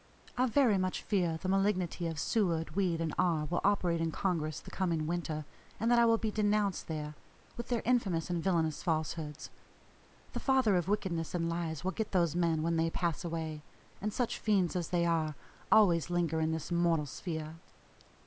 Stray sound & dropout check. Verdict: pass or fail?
pass